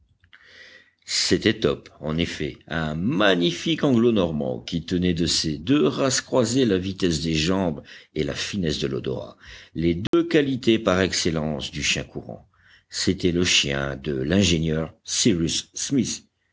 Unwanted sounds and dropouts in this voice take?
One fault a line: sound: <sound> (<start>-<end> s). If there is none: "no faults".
sound: dropout (10.1-10.1 s)